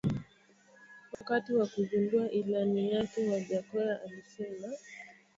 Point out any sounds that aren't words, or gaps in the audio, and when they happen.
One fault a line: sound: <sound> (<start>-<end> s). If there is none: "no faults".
sound: dropout (1.1-1.2 s)